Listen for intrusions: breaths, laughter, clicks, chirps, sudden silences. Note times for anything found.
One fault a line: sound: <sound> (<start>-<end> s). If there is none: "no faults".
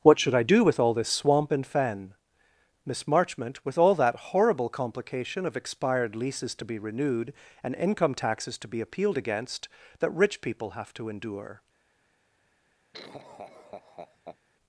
sound: laugh (12.9-14.4 s)